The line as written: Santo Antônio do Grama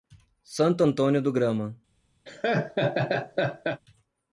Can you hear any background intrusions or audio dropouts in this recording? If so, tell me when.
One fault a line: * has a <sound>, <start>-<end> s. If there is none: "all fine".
* has a laugh, 2.3-3.8 s